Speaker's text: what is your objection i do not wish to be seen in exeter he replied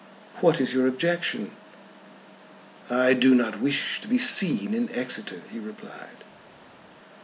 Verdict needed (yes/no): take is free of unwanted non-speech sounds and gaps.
yes